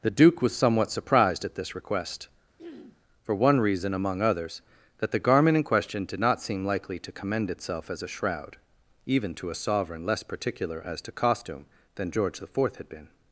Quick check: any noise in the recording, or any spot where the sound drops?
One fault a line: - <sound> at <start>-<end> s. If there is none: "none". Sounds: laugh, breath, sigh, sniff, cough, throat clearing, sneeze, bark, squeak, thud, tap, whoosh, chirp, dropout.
- throat clearing at 2.6-3.0 s